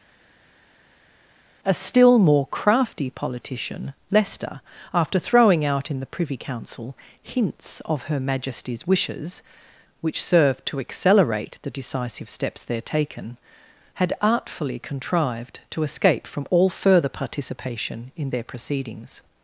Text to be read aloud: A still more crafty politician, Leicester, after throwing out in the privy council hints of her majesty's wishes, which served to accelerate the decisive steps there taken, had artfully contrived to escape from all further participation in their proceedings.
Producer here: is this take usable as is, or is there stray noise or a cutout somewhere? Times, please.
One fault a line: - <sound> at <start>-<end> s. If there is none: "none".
none